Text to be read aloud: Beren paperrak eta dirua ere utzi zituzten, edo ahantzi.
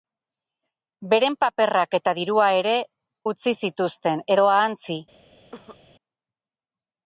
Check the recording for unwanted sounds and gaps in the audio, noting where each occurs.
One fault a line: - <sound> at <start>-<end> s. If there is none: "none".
- cough at 5.5-5.8 s